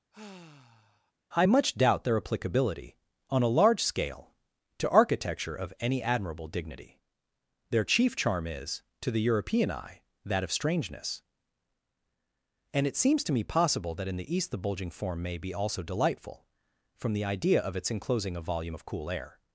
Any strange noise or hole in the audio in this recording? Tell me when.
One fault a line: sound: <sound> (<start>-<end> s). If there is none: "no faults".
sound: sigh (0.1-1.1 s)